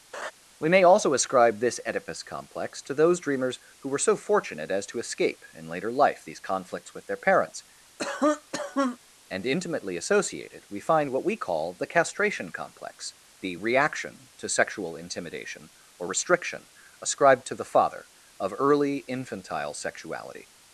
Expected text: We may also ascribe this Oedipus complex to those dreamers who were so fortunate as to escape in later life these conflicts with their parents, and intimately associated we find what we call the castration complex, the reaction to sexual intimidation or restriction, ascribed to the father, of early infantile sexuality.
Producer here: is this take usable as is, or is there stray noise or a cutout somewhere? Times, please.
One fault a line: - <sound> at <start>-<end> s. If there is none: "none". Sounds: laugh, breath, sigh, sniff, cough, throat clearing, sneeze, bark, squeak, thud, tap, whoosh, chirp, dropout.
- laugh at 0.1-0.3 s
- cough at 8.0-9.0 s